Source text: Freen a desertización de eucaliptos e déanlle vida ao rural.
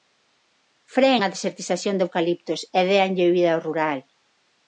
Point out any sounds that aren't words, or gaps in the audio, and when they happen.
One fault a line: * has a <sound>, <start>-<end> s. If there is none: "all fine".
all fine